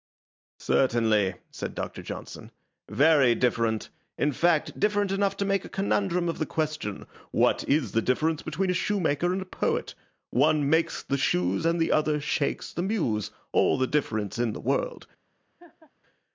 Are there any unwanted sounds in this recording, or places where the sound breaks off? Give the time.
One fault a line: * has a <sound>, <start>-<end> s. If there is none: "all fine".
* has a laugh, 15.6-15.9 s